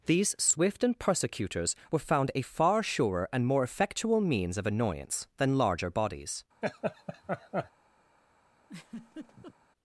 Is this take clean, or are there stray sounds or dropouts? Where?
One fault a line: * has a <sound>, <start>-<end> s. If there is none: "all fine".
* has a laugh, 6.6-7.7 s
* has a laugh, 8.6-9.5 s